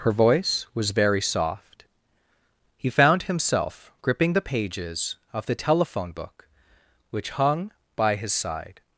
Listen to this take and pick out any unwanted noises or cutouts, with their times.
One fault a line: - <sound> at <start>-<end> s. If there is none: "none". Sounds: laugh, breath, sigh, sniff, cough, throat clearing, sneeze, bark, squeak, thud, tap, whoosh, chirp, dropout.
none